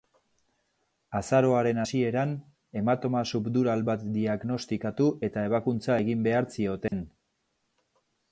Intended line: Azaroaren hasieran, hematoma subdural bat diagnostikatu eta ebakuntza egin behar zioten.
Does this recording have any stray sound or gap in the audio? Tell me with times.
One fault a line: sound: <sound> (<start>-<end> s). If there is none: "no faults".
sound: dropout (6.9-6.9 s)